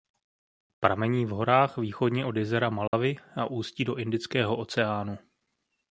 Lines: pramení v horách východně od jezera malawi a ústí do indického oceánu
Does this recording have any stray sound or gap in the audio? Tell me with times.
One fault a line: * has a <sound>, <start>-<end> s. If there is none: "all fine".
* has a dropout, 2.9-2.9 s